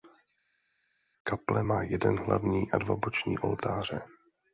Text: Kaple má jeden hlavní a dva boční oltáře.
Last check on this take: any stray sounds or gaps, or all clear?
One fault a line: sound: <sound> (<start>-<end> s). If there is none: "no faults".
no faults